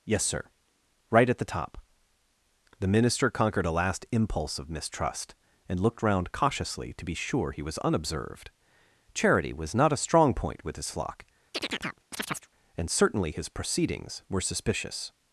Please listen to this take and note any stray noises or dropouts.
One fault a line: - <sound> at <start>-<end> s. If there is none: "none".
- chirp at 11.5-12.5 s